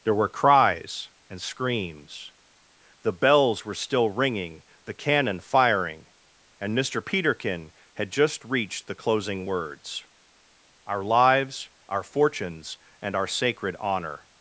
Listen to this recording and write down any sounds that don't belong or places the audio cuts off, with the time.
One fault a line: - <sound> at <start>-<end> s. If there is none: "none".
none